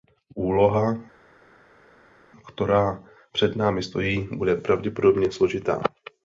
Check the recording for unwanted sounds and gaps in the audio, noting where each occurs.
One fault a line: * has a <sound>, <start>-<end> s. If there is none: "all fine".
all fine